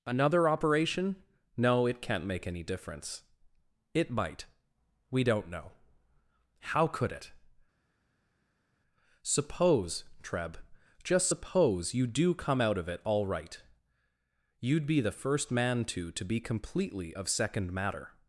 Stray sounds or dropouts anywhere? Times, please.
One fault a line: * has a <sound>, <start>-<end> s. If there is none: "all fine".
all fine